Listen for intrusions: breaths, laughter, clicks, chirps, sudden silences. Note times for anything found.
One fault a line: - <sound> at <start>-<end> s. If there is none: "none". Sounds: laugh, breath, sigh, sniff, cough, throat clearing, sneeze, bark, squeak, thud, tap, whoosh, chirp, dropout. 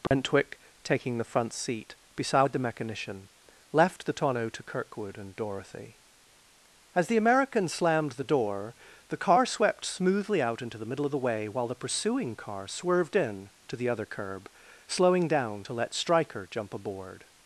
- dropout at 0.1-0.1 s